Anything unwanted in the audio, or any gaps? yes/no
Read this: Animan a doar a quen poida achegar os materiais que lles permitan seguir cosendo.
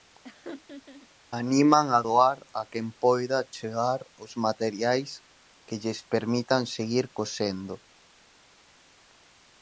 yes